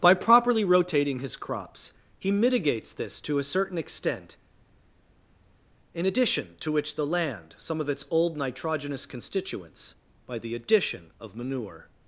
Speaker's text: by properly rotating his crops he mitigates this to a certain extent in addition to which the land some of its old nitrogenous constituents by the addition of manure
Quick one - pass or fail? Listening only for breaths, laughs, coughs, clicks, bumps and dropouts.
pass